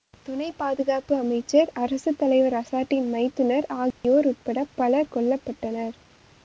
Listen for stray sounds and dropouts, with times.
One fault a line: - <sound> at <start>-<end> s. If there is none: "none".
- dropout at 3.9-4.0 s